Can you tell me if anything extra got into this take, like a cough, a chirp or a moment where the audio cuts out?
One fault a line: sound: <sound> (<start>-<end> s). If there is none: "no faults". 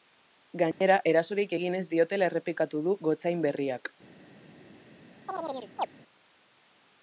sound: dropout (0.7-0.8 s)
sound: chirp (5.3-5.9 s)